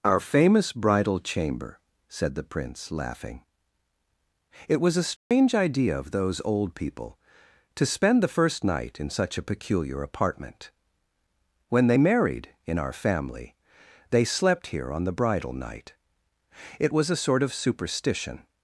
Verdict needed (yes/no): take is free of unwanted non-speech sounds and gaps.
no